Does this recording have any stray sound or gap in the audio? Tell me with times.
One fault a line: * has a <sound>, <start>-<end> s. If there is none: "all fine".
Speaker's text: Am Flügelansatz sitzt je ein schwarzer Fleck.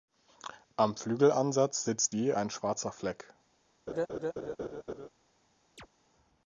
* has a laugh, 3.9-5.1 s
* has a chirp, 5.8-5.9 s